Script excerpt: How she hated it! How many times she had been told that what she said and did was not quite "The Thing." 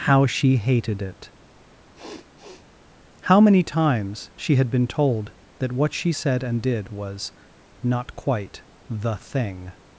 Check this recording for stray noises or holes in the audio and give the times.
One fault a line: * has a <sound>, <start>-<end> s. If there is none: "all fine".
* has a sniff, 1.9-2.7 s